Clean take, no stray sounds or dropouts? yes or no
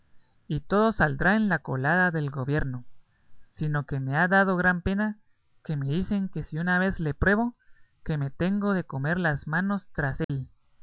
no